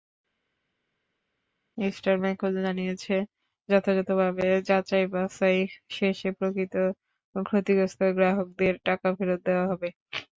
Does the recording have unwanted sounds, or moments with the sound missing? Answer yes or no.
no